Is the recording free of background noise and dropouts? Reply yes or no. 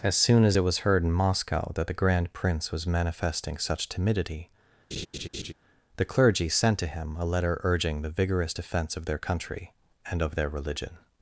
no